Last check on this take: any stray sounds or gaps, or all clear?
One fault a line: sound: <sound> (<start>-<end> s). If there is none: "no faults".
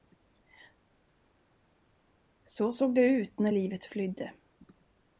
no faults